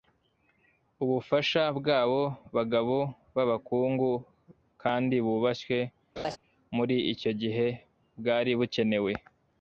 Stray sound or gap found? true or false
true